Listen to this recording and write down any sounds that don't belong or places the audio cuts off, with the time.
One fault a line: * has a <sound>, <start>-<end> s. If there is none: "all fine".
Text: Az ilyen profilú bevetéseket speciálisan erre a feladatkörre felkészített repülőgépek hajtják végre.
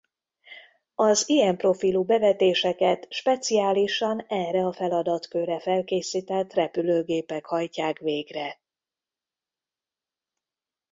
all fine